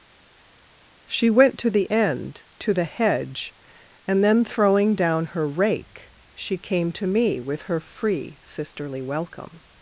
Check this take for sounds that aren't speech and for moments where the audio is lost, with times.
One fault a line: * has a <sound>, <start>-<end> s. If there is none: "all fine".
all fine